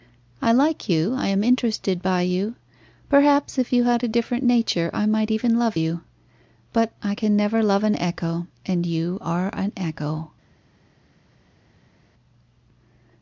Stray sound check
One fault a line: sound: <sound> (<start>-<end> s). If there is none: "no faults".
no faults